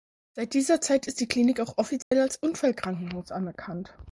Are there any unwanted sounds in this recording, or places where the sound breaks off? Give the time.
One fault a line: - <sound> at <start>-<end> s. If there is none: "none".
- dropout at 2.0-2.1 s